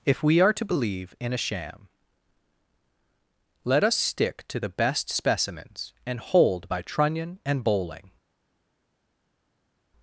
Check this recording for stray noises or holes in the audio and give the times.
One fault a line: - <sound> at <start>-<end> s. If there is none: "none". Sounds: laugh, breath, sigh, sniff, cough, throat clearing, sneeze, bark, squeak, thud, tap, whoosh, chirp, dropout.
none